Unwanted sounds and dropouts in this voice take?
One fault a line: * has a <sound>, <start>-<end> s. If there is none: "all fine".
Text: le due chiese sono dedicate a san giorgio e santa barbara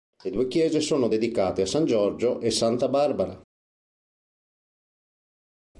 all fine